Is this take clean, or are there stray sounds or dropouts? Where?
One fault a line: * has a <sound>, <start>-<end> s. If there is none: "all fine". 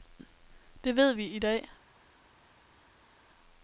all fine